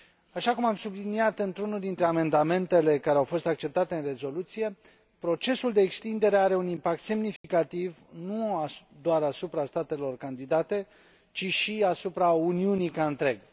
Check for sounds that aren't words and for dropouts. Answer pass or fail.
fail